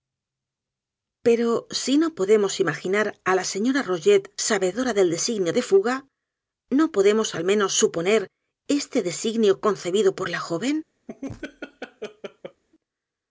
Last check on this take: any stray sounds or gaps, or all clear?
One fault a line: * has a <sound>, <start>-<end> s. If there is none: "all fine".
* has a laugh, 11.1-12.6 s